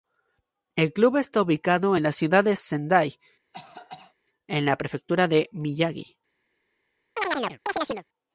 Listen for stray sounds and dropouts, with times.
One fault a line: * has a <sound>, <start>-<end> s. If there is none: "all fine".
* has a cough, 3.5-4.1 s
* has a chirp, 7.2-8.1 s